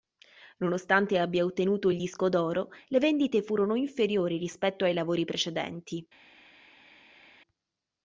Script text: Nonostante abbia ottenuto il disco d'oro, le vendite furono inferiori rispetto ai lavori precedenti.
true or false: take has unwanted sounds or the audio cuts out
false